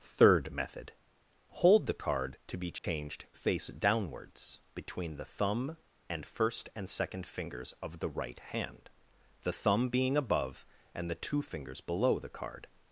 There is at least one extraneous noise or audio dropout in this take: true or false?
true